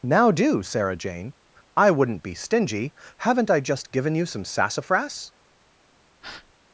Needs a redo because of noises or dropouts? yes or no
yes